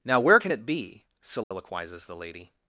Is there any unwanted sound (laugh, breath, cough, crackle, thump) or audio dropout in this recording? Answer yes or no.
yes